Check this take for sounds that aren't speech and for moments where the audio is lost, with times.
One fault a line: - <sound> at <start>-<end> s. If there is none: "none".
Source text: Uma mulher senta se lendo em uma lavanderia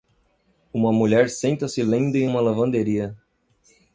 none